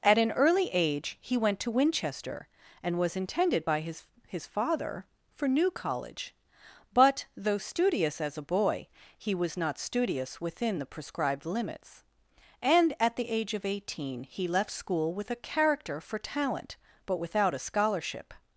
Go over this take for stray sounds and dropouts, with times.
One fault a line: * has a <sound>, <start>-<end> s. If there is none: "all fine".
all fine